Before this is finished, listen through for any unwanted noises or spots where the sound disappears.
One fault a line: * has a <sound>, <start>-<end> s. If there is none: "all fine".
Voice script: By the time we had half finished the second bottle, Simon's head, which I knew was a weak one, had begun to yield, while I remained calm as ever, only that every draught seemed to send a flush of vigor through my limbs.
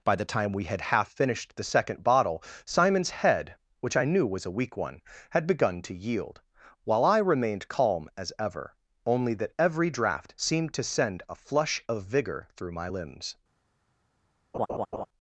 * has a laugh, 14.5-15.1 s